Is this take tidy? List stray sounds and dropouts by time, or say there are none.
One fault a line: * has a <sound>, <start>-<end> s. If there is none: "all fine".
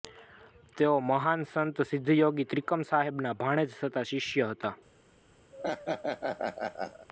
* has a laugh, 5.5-7.1 s